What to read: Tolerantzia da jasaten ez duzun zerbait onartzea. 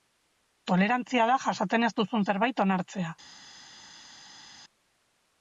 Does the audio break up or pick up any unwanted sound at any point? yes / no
no